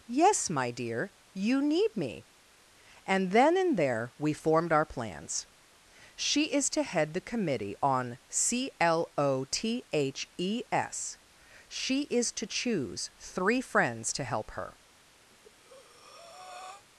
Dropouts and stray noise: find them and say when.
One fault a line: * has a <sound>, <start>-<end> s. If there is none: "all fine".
* has a breath, 15.3-16.8 s